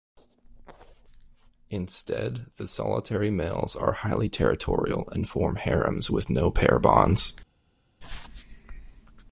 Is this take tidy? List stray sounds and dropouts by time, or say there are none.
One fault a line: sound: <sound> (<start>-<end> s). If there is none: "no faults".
no faults